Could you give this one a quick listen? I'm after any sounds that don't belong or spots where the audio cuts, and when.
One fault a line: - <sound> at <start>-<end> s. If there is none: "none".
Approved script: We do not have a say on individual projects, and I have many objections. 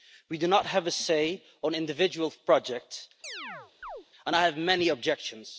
- chirp at 3.2-4.1 s